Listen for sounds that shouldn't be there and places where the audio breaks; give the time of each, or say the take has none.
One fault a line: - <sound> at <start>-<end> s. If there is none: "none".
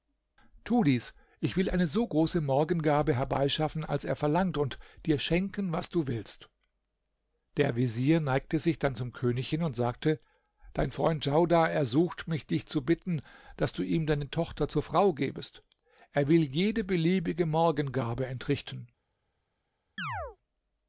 - chirp at 20.0-20.4 s